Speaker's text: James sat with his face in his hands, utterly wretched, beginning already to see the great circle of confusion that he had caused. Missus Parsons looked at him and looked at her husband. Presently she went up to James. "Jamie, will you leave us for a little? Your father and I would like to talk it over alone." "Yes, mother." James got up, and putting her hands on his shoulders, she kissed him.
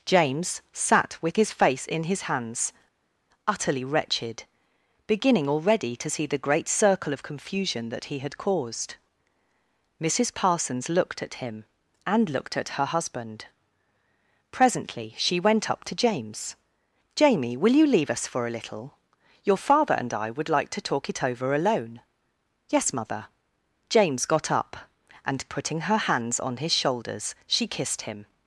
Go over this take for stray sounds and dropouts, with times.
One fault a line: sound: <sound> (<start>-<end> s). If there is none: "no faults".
no faults